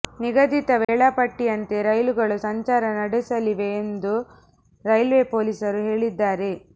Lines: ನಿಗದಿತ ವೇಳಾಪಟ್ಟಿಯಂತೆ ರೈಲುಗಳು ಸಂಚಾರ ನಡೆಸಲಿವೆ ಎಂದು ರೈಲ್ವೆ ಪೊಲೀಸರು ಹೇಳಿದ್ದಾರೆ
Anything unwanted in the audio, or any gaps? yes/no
yes